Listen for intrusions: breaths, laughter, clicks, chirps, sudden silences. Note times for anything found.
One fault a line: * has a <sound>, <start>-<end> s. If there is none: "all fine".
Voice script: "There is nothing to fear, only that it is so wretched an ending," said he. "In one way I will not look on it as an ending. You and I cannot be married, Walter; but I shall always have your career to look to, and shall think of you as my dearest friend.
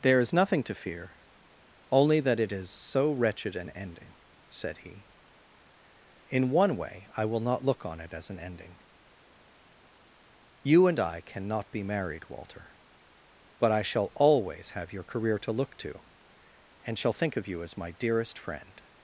all fine